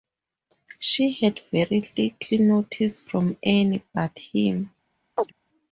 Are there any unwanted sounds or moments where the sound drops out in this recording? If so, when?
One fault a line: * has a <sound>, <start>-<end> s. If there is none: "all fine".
* has a chirp, 5.2-5.3 s